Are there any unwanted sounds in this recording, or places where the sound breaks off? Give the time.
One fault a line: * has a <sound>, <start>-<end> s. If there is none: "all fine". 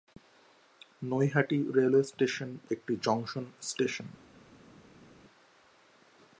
all fine